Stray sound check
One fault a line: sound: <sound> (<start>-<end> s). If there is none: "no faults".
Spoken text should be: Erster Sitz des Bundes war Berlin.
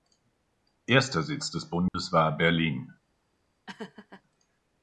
sound: dropout (1.9-1.9 s)
sound: laugh (3.7-4.2 s)